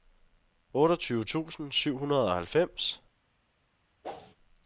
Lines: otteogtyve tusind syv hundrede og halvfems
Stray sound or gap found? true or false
true